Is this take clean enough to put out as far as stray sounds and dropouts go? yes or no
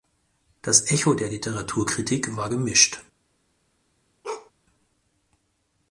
no